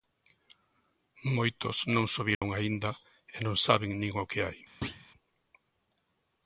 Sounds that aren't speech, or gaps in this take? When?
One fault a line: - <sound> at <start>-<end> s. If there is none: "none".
- dropout at 2.3-2.4 s
- thud at 4.8-5.1 s